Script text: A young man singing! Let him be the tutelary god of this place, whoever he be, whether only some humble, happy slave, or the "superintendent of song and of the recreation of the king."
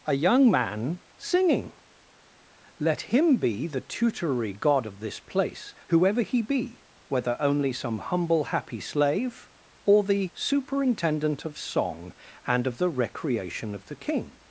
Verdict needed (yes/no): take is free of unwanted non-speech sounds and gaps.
yes